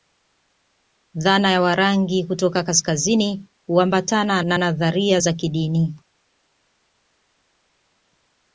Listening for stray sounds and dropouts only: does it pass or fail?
pass